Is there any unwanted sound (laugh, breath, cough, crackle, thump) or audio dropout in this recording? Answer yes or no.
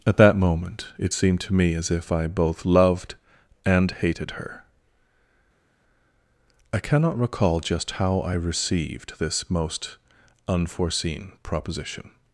no